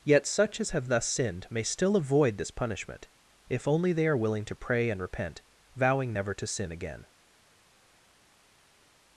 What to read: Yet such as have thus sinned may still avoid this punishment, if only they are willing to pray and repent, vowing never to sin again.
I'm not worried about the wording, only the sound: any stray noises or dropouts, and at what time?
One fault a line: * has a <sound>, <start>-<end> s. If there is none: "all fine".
all fine